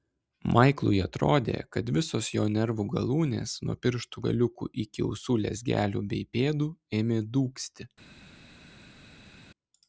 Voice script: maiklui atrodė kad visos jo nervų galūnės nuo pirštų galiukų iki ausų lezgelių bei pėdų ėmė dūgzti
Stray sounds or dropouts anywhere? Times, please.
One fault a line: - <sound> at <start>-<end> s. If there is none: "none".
none